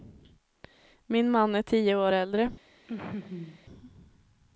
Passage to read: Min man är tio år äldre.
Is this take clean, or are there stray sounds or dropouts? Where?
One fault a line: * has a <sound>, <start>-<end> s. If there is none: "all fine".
* has a laugh, 2.9-3.7 s